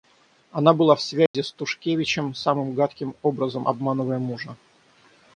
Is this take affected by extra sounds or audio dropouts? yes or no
yes